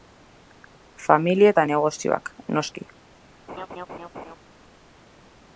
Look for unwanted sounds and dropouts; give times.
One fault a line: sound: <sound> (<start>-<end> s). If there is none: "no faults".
sound: laugh (3.5-4.4 s)